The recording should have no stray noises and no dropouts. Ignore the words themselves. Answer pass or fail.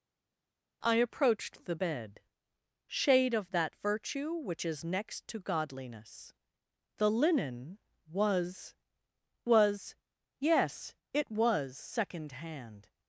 pass